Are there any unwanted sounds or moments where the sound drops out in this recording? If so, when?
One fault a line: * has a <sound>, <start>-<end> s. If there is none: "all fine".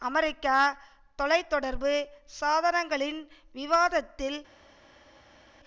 all fine